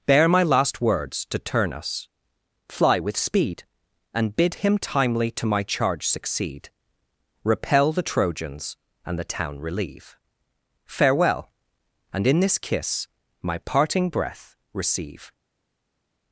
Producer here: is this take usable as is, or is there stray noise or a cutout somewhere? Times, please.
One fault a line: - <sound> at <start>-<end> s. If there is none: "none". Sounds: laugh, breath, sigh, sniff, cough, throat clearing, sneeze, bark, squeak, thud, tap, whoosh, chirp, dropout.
none